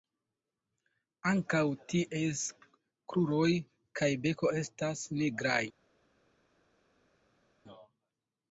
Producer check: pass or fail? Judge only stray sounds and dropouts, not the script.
pass